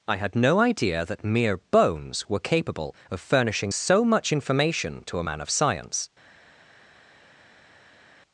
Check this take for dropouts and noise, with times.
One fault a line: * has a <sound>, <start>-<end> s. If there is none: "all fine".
all fine